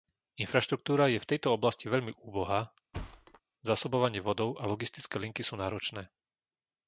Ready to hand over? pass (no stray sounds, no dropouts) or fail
fail